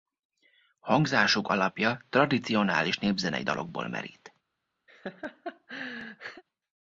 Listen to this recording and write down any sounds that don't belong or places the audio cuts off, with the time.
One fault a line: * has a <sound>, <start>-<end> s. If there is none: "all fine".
* has a laugh, 4.9-6.4 s